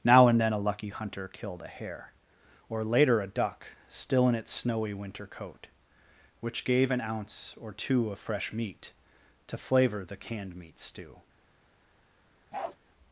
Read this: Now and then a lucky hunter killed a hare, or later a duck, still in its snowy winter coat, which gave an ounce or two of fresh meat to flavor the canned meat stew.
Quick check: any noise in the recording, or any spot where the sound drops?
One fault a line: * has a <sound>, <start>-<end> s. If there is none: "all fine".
* has a bark, 12.5-12.8 s